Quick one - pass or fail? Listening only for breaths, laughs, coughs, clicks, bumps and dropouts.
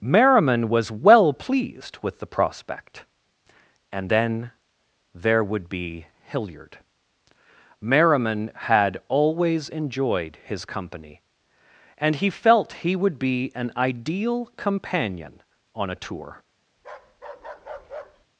fail